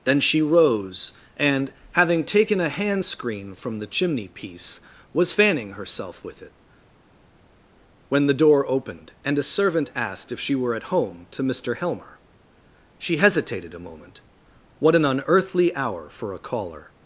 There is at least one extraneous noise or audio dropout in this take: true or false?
false